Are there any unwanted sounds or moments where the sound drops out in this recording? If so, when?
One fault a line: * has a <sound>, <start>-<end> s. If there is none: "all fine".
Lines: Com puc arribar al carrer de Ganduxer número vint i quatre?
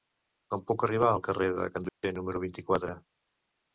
* has a dropout, 1.9-2.0 s